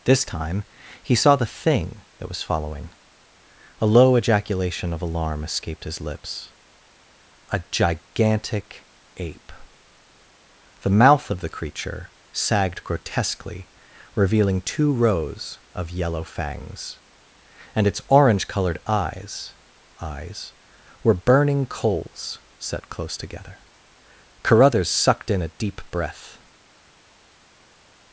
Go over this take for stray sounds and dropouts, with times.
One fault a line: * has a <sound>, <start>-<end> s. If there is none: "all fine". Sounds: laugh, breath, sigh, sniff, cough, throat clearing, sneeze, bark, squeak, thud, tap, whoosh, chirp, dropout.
all fine